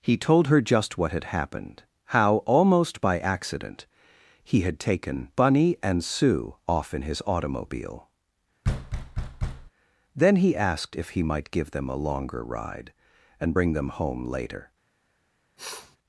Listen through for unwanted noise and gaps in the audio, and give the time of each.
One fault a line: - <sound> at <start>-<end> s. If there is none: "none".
- thud at 8.6-9.7 s
- sniff at 15.6-16.0 s